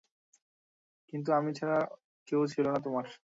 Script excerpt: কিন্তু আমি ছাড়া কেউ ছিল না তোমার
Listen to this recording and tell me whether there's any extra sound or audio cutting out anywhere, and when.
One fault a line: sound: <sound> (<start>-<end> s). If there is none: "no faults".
no faults